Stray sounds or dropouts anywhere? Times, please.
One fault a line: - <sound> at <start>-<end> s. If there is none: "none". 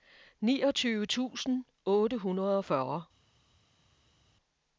none